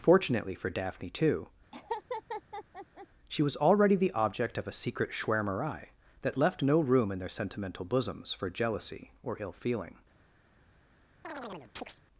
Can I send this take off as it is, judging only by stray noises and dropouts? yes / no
no